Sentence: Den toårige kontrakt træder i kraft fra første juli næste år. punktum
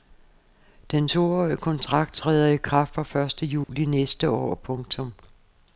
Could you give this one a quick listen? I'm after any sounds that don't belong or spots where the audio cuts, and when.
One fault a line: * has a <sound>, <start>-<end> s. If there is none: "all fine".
* has a dropout, 3.6-3.7 s